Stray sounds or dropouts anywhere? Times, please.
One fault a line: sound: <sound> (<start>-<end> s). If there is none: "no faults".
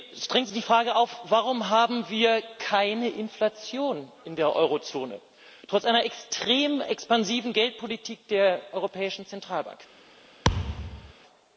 sound: thud (10.4-11.1 s)